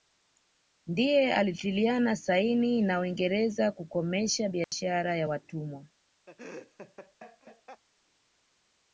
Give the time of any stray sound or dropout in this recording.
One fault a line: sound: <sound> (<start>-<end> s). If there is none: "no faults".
sound: dropout (4.6-4.7 s)
sound: laugh (6.3-7.8 s)